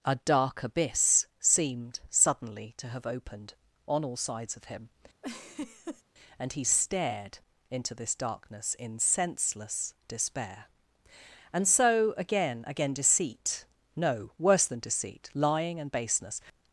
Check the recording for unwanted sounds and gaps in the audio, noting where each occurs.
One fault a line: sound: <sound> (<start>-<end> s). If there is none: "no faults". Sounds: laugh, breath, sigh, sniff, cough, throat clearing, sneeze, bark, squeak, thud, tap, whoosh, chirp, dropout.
sound: laugh (5.2-6.0 s)